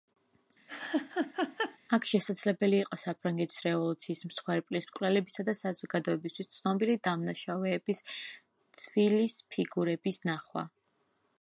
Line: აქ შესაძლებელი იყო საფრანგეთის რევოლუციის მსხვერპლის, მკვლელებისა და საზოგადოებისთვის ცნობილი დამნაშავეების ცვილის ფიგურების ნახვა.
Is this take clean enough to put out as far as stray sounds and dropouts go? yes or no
no